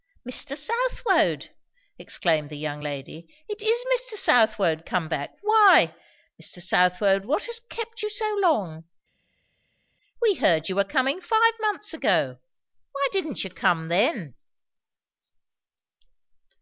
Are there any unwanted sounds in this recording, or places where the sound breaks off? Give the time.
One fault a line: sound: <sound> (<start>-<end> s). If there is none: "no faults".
no faults